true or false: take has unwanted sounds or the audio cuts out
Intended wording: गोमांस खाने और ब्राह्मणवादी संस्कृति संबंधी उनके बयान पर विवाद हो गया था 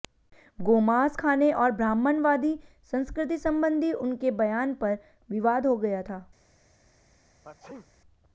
true